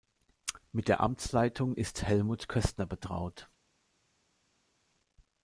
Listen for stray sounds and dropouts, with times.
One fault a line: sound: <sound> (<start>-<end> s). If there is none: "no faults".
no faults